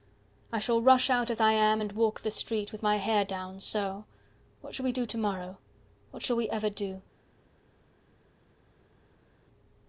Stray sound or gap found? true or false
false